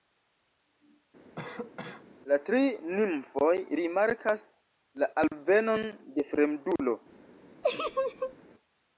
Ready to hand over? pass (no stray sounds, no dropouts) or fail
fail